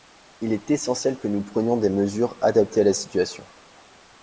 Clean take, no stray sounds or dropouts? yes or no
yes